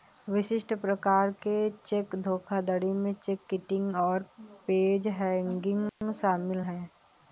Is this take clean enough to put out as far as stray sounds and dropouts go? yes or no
no